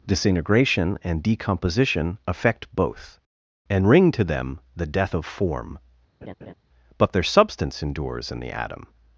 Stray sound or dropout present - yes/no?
yes